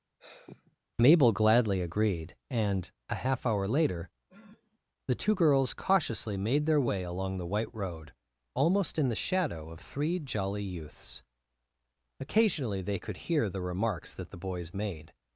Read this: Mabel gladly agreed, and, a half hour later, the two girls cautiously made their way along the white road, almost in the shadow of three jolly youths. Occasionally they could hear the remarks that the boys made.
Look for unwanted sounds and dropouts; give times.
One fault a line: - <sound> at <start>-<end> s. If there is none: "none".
- sigh at 0.2-0.8 s
- sniff at 4.3-4.8 s